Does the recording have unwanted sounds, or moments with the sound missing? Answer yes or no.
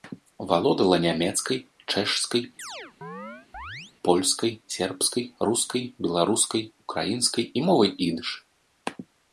yes